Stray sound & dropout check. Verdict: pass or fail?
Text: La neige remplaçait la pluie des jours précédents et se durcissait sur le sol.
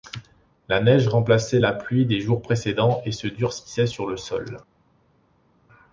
pass